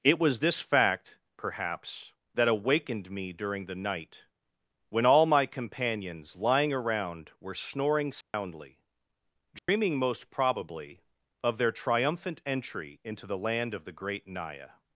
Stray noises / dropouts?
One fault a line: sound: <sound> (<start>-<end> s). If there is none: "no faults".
sound: dropout (8.2-8.3 s)
sound: dropout (9.6-9.7 s)